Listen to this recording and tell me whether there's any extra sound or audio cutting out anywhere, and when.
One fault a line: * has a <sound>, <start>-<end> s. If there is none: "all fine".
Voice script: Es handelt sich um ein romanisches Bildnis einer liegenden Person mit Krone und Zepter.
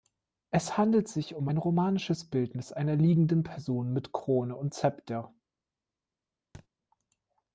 * has a thud, 6.5-6.7 s